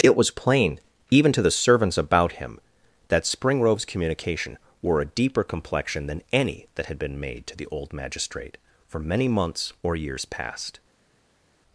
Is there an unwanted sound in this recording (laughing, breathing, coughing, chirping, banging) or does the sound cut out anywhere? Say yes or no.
no